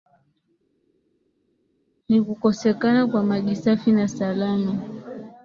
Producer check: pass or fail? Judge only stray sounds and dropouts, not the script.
pass